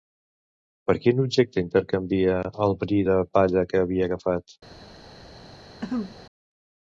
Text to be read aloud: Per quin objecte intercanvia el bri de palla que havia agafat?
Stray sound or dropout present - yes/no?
yes